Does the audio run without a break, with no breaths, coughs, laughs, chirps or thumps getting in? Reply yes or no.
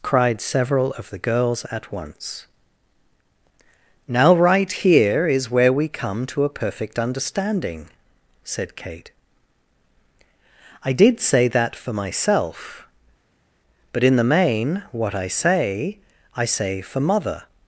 yes